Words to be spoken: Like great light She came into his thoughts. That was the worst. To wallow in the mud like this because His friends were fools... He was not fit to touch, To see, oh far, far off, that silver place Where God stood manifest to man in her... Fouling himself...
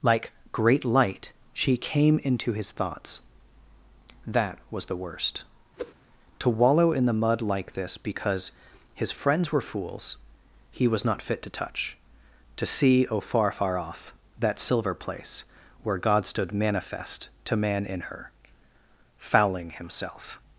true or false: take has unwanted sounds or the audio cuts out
true